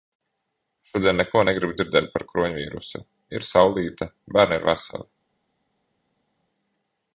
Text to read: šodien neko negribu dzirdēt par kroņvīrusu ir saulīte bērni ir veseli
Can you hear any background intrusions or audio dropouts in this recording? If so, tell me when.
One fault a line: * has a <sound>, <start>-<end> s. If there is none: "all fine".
all fine